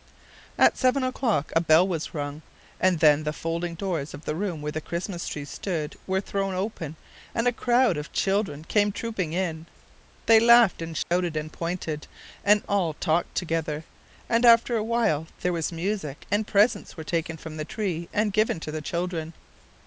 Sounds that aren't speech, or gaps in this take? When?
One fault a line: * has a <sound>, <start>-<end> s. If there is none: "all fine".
* has a dropout, 11.0-11.1 s